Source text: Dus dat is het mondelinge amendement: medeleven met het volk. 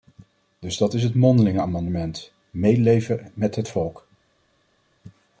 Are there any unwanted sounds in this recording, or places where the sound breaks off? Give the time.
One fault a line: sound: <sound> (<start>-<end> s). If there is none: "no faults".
no faults